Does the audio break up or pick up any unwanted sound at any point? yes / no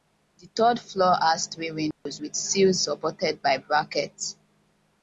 yes